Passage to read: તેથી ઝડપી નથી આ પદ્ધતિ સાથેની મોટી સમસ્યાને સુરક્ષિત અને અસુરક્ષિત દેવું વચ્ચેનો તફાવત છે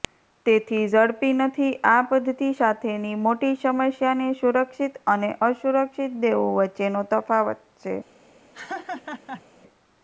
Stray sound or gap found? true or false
true